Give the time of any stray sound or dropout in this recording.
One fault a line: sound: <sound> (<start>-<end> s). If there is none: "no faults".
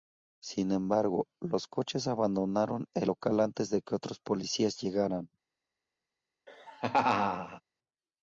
sound: laugh (6.5-7.6 s)